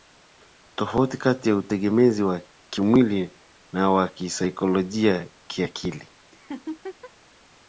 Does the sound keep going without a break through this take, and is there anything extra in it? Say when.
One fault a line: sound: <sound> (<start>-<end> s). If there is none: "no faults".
sound: laugh (6.3-7.1 s)